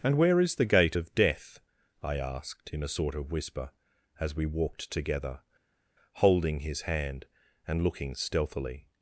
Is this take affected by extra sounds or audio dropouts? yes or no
no